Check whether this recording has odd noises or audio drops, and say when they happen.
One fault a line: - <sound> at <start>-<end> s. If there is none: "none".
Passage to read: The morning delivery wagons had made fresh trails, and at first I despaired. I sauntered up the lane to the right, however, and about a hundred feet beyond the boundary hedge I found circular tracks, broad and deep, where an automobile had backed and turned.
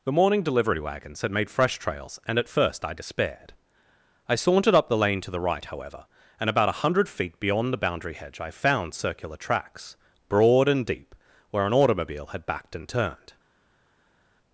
none